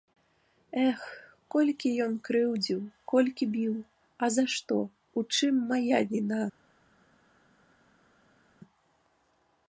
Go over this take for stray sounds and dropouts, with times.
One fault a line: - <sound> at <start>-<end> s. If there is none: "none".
none